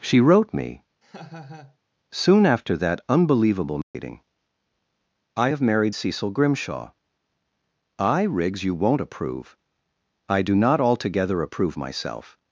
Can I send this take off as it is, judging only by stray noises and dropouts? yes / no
no